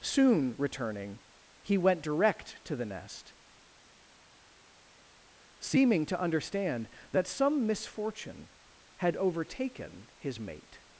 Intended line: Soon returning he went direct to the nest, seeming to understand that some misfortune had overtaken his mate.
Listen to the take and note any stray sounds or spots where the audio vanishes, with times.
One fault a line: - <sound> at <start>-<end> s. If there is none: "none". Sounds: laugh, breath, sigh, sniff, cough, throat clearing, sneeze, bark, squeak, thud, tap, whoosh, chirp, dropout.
none